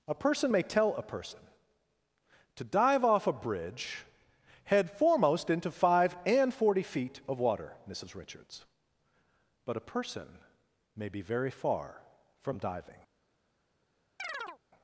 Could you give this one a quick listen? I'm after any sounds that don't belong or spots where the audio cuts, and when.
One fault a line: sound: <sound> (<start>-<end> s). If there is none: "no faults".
sound: chirp (14.2-14.6 s)